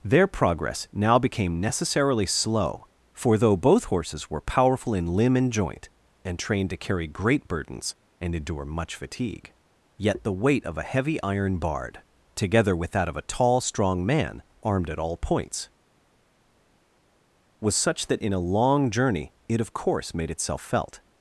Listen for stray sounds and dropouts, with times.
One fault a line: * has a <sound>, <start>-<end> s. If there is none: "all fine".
all fine